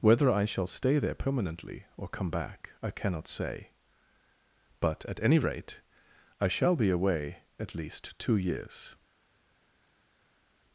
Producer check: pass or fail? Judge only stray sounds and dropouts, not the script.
pass